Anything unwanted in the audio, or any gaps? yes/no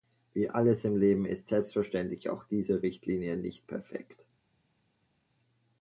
no